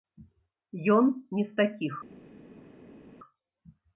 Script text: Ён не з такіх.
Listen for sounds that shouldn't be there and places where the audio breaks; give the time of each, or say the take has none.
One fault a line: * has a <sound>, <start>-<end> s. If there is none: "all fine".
all fine